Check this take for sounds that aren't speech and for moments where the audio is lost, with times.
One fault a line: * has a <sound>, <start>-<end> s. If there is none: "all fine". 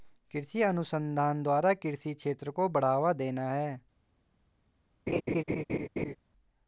* has a laugh, 5.1-6.2 s